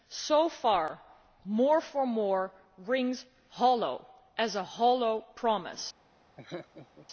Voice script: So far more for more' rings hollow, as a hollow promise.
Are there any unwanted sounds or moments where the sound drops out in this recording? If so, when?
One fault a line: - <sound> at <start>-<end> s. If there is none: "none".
- laugh at 6.4-7.1 s